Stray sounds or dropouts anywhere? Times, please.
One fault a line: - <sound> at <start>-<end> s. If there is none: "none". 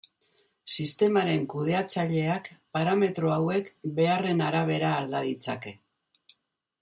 none